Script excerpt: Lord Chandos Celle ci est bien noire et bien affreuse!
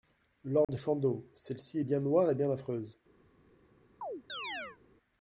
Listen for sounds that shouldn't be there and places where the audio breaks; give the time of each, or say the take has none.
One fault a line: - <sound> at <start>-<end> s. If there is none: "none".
- dropout at 0.6-0.7 s
- chirp at 4.0-4.8 s